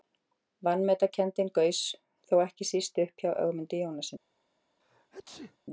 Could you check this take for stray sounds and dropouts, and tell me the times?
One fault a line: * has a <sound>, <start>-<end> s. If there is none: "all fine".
* has a sneeze, 4.8-5.6 s